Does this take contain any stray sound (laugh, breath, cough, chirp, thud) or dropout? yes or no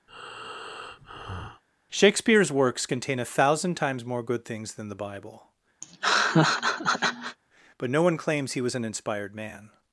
yes